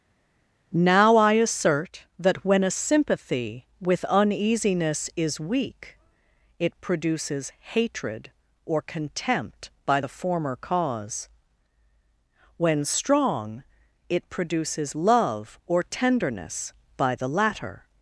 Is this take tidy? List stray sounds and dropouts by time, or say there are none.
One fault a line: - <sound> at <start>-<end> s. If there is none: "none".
none